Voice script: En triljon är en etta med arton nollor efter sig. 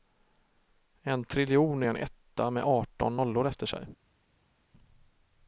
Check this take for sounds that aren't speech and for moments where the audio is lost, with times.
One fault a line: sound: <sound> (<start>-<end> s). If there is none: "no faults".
no faults